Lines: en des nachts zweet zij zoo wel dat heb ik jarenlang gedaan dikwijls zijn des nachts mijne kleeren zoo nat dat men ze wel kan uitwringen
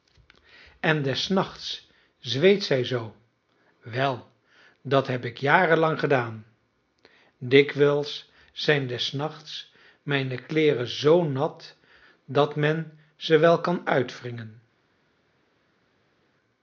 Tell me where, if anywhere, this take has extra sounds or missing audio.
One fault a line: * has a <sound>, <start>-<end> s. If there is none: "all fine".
all fine